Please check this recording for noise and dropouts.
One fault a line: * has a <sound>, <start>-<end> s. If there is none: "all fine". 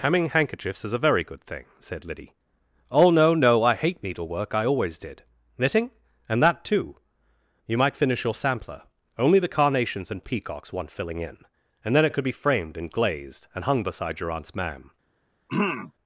* has a throat clearing, 15.5-15.9 s